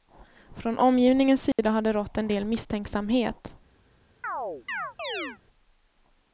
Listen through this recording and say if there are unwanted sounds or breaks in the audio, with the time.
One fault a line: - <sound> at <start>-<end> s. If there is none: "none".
- dropout at 1.5-1.6 s
- chirp at 4.2-5.4 s